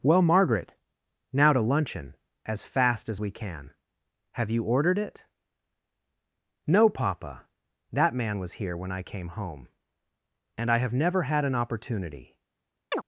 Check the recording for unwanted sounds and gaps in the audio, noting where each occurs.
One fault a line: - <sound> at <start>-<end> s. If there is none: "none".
- chirp at 12.9-13.0 s